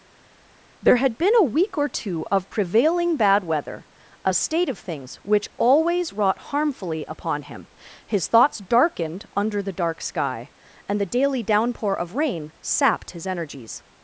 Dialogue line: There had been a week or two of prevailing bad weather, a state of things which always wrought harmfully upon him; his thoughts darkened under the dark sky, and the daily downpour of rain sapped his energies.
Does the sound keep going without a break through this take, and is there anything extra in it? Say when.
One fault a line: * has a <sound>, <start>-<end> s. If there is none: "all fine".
all fine